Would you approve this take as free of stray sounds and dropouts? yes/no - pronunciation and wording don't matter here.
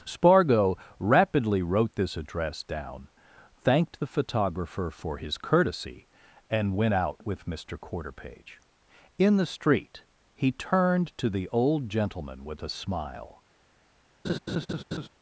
no